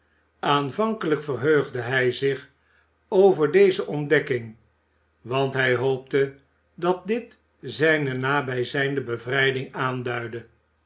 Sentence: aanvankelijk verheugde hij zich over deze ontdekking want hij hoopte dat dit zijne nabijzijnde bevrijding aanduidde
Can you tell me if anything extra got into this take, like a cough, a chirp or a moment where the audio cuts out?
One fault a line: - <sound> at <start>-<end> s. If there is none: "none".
none